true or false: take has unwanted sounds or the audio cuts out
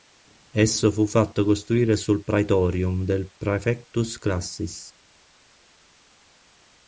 false